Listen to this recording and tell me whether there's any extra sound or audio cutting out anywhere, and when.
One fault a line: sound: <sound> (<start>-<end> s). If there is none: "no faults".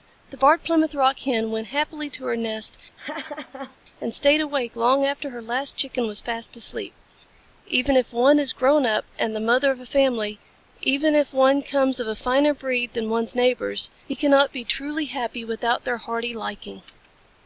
sound: laugh (3.0-3.8 s)